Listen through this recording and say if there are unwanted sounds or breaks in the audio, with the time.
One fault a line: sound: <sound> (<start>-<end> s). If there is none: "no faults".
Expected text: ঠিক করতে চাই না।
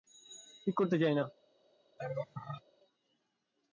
sound: laugh (2.0-2.6 s)